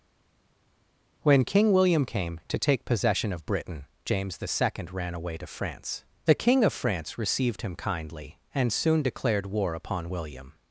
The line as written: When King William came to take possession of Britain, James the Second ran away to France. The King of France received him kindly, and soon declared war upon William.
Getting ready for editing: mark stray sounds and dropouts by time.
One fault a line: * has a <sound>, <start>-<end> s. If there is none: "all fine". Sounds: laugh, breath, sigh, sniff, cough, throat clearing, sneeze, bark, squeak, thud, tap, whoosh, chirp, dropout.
all fine